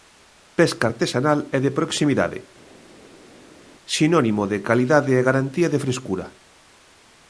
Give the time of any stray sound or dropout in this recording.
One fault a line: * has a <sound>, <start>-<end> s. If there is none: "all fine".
all fine